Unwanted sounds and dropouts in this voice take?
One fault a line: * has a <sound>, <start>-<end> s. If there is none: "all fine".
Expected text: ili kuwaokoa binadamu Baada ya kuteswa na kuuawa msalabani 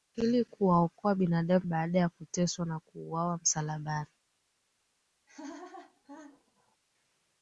* has a laugh, 5.3-6.8 s